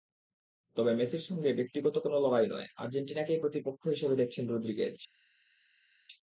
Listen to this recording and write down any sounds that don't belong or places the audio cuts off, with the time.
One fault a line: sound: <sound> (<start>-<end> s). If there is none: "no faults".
no faults